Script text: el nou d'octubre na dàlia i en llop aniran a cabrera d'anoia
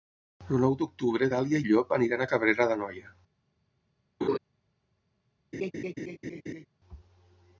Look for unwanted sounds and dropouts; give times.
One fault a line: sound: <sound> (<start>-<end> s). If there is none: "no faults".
sound: laugh (4.2-4.4 s)
sound: laugh (5.5-6.7 s)